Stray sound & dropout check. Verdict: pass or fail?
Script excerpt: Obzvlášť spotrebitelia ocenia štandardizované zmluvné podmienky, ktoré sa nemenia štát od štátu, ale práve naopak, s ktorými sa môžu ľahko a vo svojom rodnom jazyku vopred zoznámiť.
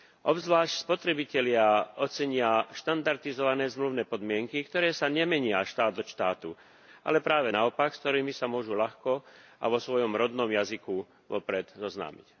pass